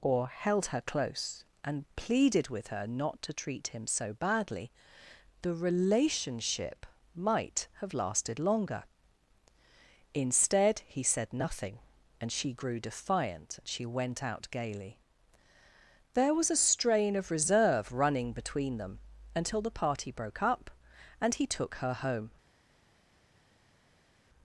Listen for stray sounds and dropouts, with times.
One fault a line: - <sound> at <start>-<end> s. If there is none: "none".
none